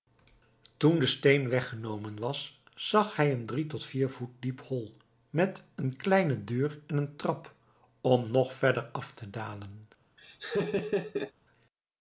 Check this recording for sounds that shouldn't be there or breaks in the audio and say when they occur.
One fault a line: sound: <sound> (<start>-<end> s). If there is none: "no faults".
sound: laugh (10.2-11.3 s)